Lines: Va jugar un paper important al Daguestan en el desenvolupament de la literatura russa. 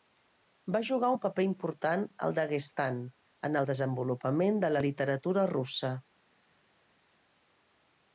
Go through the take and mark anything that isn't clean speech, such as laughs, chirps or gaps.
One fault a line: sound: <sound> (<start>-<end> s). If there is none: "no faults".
no faults